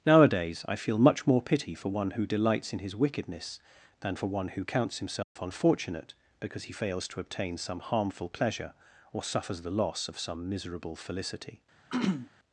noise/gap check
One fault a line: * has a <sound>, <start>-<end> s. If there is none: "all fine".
* has a dropout, 5.2-5.4 s
* has a throat clearing, 11.9-12.3 s